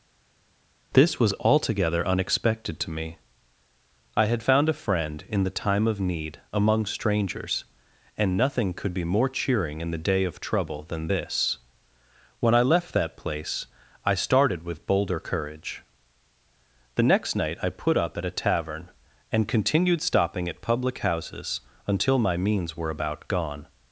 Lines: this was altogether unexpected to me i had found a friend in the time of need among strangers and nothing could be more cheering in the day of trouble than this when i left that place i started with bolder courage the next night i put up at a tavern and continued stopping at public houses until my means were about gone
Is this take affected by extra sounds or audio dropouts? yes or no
no